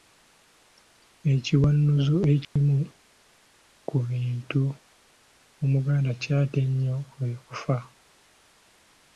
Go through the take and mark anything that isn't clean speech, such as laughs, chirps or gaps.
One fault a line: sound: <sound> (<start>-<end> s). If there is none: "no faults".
sound: dropout (2.4-2.6 s)